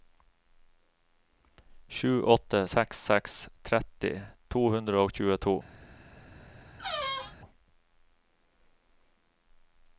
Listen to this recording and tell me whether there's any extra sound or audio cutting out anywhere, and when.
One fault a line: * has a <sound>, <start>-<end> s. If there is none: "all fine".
* has a squeak, 6.8-7.4 s